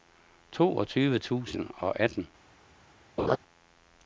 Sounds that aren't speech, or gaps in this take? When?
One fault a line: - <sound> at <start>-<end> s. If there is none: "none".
- laugh at 3.2-3.4 s